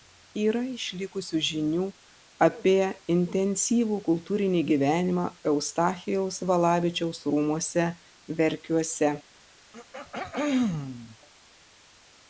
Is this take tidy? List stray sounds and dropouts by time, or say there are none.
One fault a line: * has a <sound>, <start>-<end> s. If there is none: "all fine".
* has a throat clearing, 9.7-11.2 s